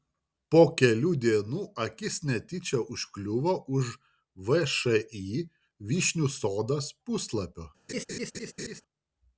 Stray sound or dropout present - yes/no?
yes